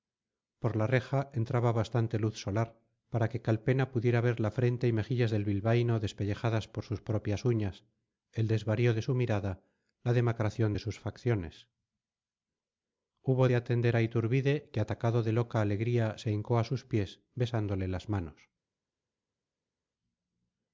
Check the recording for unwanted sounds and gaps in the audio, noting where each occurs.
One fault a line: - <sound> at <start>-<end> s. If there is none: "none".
none